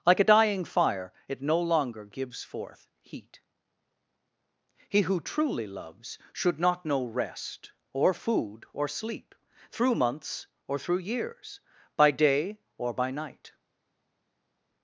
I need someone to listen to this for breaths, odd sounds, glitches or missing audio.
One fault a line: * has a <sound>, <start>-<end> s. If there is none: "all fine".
all fine